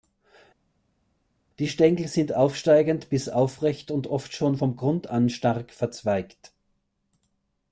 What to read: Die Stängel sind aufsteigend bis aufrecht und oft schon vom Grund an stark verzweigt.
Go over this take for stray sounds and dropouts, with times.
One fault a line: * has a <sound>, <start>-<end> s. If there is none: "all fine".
all fine